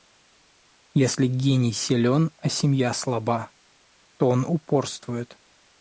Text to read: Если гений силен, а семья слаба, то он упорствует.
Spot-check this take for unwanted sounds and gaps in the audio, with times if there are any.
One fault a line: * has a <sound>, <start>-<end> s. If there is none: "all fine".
all fine